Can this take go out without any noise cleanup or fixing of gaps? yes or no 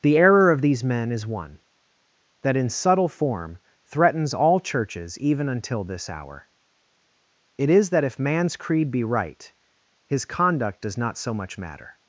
yes